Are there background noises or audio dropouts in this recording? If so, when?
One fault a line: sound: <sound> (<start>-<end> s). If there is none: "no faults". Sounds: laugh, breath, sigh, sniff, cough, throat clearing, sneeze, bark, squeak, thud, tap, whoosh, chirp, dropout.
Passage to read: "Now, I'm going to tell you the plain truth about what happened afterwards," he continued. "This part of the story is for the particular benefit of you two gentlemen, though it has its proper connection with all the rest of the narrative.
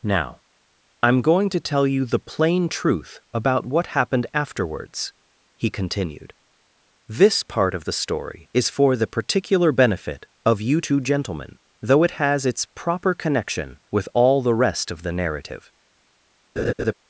sound: laugh (16.6-16.9 s)